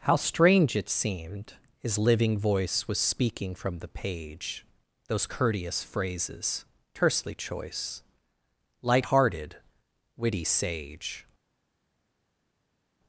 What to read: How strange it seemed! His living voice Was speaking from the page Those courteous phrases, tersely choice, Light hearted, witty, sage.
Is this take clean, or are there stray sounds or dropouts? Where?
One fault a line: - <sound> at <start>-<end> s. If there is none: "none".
none